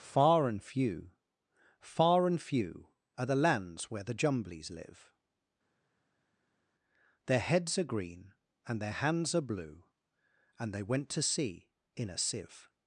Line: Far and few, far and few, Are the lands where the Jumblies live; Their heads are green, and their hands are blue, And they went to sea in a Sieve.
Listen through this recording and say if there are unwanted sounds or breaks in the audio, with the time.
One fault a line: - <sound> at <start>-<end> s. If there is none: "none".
none